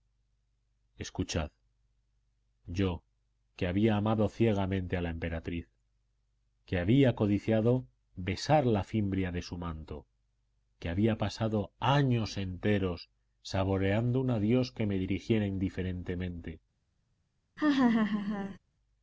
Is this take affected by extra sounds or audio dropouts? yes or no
yes